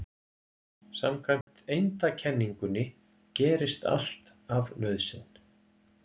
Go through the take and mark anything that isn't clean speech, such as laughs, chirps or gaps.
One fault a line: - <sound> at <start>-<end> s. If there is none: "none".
- dropout at 1.4-1.5 s